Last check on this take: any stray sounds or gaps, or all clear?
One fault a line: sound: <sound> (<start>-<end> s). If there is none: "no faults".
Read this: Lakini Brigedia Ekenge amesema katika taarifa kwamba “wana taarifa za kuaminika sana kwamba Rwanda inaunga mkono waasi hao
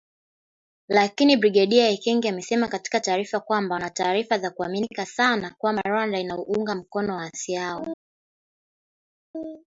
no faults